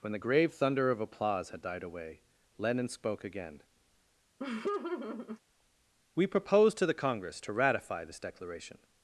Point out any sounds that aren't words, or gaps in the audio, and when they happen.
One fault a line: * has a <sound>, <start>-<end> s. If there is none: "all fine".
* has a laugh, 4.4-5.4 s